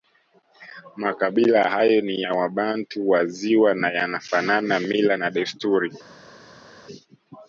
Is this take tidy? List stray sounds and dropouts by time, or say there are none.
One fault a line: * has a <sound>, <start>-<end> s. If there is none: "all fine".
all fine